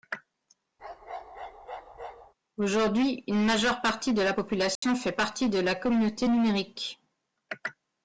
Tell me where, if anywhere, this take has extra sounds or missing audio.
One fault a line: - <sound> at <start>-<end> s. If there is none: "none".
- bark at 0.8-2.3 s
- dropout at 4.8-4.8 s